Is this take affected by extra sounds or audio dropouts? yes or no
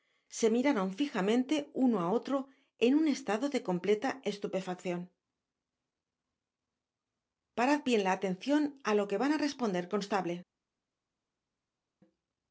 no